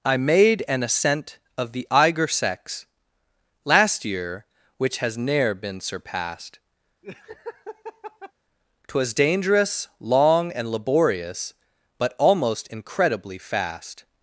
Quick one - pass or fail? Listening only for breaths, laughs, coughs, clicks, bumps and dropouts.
fail